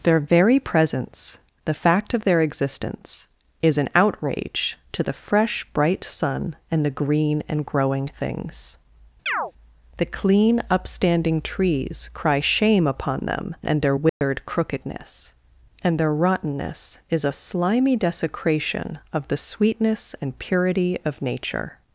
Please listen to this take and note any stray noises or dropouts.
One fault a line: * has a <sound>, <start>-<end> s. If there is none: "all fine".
* has a chirp, 9.3-9.5 s
* has a dropout, 14.1-14.2 s